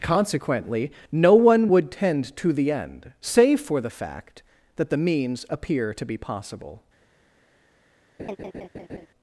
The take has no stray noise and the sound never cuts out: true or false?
false